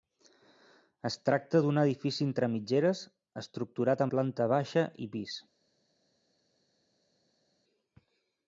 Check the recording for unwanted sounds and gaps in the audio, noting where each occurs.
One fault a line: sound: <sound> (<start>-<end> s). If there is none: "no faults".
no faults